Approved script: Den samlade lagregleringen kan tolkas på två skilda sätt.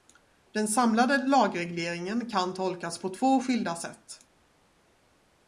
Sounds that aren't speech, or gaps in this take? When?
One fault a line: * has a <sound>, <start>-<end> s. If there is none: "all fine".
all fine